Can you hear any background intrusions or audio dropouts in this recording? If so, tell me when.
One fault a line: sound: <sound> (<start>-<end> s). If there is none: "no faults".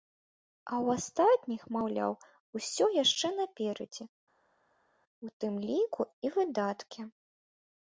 no faults